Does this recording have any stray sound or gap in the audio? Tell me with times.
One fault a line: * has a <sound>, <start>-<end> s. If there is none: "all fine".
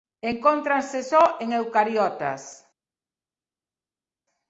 all fine